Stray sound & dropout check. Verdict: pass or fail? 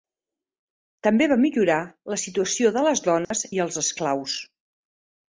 fail